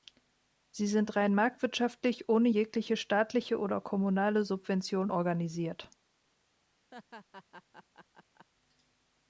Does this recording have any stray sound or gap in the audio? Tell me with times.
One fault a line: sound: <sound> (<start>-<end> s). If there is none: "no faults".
sound: laugh (6.9-8.5 s)